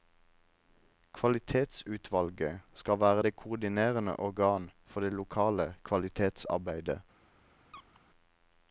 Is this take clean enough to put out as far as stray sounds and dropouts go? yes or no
no